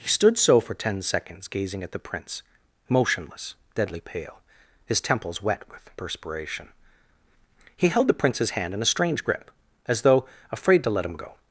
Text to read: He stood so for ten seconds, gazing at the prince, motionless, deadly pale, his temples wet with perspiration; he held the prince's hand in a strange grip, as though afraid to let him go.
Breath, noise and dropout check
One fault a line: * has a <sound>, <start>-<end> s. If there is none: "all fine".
all fine